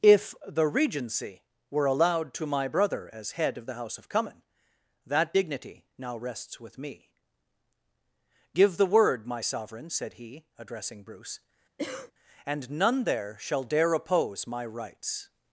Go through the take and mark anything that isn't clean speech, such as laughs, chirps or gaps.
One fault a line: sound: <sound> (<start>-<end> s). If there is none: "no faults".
sound: cough (11.8-12.1 s)